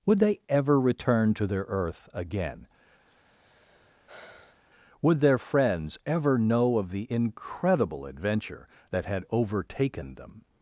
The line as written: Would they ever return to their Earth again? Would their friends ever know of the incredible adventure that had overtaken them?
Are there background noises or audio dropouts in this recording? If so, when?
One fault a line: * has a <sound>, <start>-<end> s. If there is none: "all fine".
* has a sigh, 3.1-4.6 s